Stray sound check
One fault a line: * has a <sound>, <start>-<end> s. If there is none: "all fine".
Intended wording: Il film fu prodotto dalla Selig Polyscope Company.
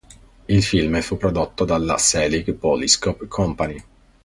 all fine